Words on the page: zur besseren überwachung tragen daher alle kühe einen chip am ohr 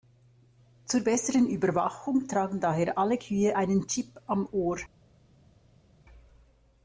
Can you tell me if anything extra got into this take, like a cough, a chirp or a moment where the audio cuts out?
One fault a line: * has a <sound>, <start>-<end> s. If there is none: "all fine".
all fine